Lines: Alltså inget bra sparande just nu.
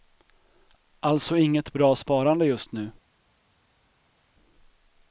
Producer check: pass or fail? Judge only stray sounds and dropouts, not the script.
pass